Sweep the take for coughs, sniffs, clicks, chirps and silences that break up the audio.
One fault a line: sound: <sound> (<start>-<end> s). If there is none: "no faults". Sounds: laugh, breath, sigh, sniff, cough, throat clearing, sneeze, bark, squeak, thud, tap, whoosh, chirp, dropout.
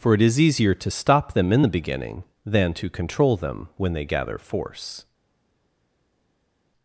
no faults